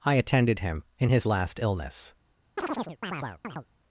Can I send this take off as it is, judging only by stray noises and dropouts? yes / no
no